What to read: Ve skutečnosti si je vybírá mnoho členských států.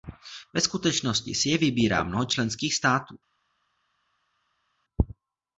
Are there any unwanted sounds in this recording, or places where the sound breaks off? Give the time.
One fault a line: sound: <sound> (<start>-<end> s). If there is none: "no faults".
no faults